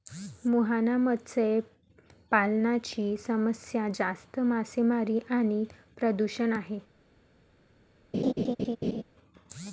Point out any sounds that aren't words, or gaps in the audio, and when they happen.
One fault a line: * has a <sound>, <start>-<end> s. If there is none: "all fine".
* has a laugh, 8.1-9.0 s